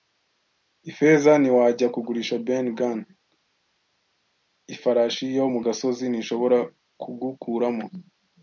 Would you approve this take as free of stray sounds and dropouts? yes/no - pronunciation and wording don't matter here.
yes